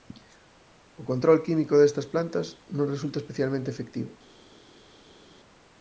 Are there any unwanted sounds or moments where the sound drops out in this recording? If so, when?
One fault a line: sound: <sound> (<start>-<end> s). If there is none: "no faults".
no faults